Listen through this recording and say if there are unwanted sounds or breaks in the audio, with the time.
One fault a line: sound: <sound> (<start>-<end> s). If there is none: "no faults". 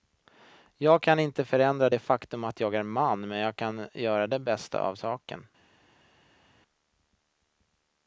no faults